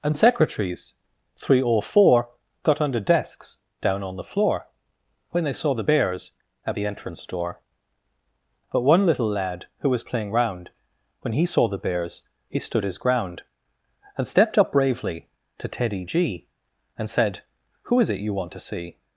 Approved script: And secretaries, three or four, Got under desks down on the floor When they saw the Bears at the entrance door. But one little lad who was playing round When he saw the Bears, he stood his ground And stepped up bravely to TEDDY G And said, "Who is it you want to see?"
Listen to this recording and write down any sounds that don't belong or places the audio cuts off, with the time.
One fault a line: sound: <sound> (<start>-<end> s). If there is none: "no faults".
no faults